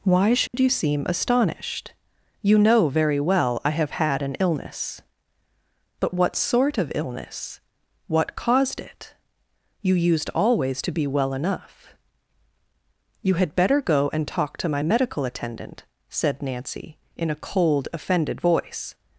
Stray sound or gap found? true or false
true